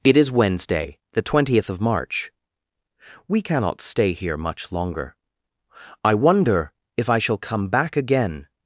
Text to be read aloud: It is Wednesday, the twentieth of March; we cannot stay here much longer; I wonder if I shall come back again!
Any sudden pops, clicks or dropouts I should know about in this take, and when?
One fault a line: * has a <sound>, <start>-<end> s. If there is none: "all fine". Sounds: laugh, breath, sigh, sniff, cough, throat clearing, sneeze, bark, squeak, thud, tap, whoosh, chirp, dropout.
all fine